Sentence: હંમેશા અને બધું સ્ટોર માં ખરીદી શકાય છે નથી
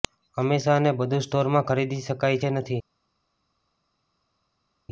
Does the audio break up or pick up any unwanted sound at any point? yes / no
no